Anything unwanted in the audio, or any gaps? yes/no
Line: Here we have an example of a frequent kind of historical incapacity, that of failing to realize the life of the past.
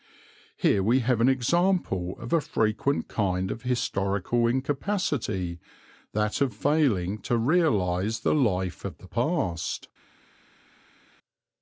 no